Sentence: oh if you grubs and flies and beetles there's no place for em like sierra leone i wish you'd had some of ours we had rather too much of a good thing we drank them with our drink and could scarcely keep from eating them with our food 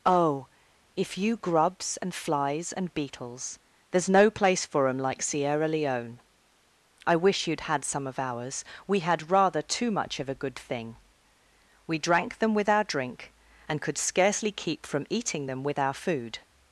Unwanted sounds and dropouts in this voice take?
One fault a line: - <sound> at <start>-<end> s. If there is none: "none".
none